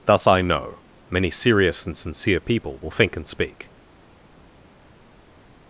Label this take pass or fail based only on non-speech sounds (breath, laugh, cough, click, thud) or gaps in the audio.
pass